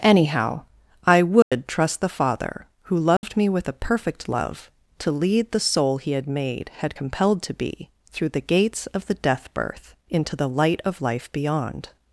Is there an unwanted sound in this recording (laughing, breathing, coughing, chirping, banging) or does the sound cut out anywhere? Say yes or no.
yes